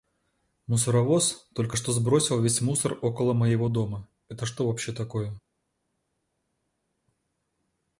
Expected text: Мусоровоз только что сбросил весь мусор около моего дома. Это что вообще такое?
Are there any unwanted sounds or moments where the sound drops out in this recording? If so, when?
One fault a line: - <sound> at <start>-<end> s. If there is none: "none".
none